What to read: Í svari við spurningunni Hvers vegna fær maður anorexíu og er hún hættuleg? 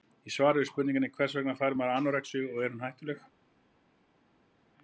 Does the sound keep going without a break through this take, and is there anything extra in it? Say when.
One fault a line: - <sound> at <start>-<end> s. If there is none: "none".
none